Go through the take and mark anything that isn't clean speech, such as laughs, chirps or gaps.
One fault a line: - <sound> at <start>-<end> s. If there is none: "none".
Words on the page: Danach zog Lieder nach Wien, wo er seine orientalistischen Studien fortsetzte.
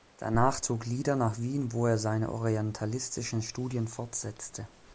none